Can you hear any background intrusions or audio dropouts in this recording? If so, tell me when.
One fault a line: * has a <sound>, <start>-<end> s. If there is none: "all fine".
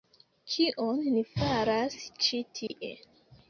* has a dropout, 2.7-2.7 s